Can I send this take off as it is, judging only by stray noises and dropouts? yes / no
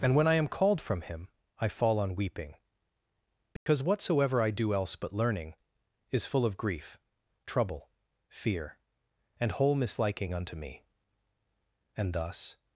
no